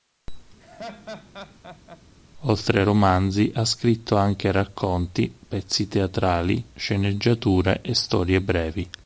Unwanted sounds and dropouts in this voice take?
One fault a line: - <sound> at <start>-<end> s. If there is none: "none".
- laugh at 0.6-2.0 s